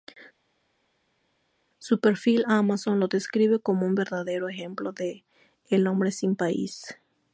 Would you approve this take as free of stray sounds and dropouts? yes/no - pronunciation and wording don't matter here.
yes